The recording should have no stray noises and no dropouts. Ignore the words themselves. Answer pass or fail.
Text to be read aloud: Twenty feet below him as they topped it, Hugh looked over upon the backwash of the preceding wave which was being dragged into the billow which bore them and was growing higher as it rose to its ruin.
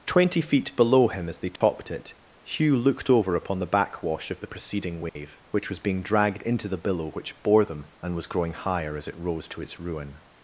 fail